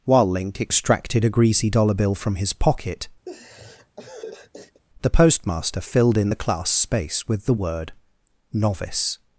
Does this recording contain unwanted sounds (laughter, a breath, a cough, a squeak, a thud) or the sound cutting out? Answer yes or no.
yes